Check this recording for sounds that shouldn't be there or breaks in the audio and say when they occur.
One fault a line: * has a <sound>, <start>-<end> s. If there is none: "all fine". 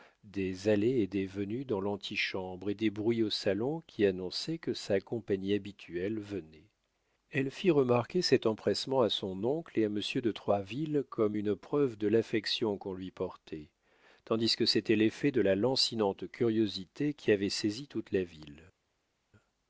all fine